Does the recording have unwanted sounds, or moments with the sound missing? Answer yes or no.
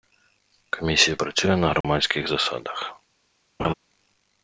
yes